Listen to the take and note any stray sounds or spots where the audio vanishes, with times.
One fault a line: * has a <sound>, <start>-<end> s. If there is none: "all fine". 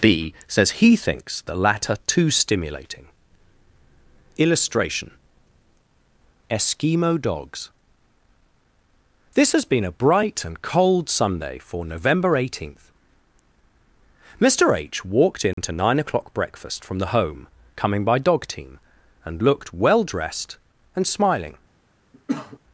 * has a dropout, 15.5-15.6 s
* has a cough, 22.1-22.6 s